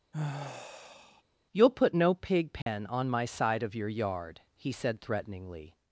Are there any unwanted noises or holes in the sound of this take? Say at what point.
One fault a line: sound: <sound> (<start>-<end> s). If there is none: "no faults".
sound: sigh (0.1-1.2 s)
sound: dropout (2.6-2.7 s)